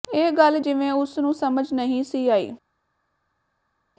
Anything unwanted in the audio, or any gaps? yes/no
no